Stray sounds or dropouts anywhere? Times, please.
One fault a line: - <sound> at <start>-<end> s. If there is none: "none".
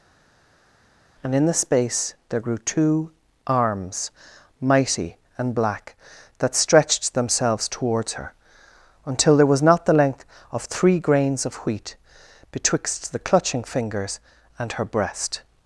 none